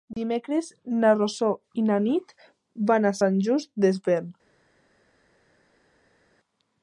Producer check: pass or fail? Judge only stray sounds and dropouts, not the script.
pass